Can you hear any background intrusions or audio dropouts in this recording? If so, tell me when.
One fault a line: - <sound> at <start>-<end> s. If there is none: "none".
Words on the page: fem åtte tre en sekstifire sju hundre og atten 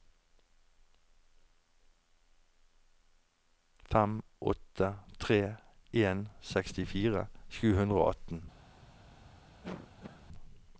- cough at 9.6-10.3 s